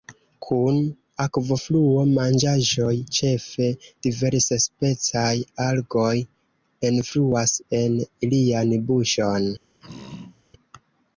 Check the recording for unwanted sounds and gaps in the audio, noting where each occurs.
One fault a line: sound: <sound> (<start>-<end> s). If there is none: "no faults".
sound: throat clearing (9.8-10.4 s)